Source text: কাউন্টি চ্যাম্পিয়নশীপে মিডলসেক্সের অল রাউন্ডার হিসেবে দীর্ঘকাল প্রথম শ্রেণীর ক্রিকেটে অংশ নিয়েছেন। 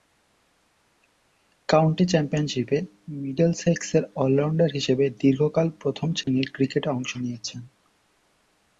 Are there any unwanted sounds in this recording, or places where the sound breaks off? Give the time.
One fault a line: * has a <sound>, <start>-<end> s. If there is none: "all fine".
* has a dropout, 6.2-6.3 s